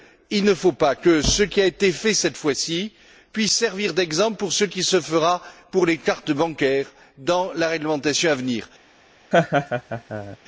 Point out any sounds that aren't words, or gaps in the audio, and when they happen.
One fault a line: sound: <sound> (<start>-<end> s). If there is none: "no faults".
sound: laugh (9.3-10.4 s)